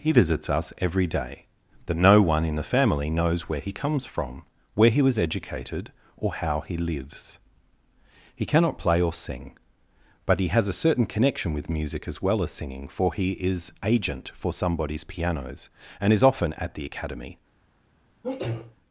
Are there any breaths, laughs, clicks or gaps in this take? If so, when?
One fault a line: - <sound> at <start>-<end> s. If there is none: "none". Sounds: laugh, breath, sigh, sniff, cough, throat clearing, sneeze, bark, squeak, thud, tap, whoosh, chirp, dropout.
- sneeze at 18.2-18.8 s